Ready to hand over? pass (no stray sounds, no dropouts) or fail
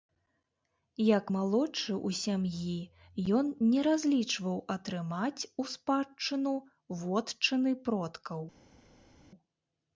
pass